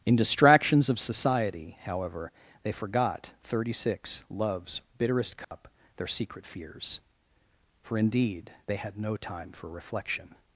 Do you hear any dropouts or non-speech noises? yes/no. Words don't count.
yes